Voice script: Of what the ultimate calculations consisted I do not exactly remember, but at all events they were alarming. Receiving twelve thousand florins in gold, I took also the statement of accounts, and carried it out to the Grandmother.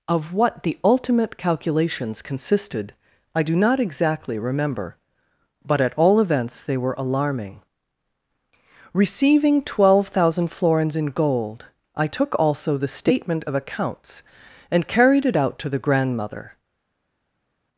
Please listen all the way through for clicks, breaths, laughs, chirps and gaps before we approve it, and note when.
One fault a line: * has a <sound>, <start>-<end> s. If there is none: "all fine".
all fine